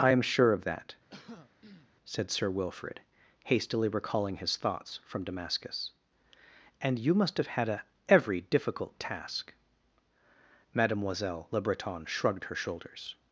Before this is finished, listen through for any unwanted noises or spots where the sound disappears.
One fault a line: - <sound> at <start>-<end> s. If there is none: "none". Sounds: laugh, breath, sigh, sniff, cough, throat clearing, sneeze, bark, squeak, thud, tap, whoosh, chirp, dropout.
- throat clearing at 1.1-1.9 s